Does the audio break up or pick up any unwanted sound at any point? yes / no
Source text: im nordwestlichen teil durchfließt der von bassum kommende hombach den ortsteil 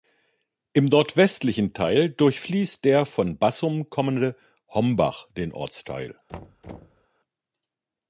yes